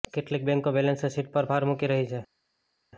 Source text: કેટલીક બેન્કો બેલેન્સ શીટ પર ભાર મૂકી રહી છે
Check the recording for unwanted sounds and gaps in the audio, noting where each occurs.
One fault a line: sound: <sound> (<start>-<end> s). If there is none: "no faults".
no faults